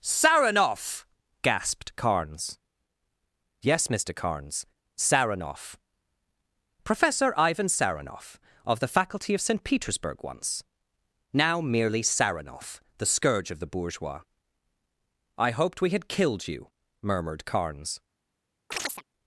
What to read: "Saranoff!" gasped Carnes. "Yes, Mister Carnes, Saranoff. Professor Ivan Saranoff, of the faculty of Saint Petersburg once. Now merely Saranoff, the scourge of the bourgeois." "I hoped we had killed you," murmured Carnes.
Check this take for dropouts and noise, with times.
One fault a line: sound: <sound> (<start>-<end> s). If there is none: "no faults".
sound: chirp (18.7-19.0 s)